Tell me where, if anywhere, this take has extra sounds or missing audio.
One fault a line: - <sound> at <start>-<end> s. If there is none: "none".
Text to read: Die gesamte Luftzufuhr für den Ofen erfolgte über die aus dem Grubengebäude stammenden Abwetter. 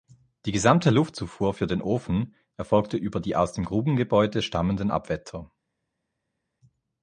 none